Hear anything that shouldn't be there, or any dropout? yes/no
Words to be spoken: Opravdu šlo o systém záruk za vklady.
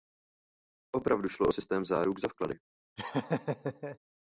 yes